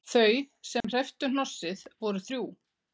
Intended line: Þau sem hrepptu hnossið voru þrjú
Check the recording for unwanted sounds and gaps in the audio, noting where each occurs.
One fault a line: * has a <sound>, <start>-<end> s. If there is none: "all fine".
* has a dropout, 0.8-0.8 s